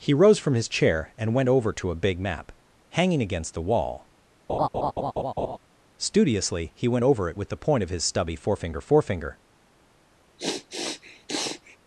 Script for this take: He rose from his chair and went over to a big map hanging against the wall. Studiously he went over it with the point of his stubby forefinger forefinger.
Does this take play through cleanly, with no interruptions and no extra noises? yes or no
no